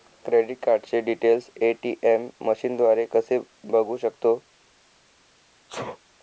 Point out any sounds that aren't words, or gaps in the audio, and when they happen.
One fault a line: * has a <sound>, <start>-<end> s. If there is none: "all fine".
* has a sneeze, 5.7-6.0 s